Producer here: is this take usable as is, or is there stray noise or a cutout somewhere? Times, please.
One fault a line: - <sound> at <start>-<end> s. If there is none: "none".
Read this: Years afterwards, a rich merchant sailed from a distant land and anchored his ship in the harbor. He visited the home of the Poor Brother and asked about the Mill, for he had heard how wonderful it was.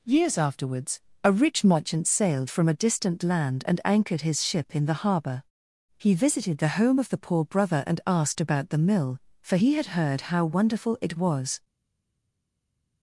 none